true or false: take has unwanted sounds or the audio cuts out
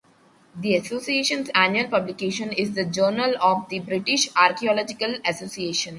false